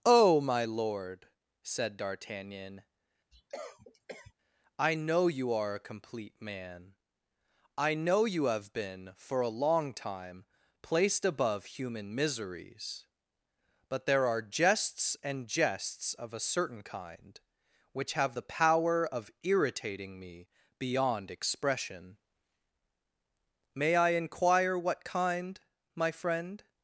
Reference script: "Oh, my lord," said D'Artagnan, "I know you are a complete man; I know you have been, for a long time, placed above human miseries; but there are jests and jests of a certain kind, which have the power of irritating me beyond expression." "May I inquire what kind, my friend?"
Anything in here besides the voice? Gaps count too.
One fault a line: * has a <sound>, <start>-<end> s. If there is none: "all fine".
* has a cough, 3.3-4.3 s